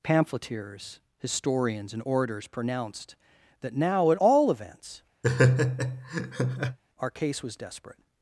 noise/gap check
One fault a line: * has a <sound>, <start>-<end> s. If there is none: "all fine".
* has a laugh, 5.2-6.8 s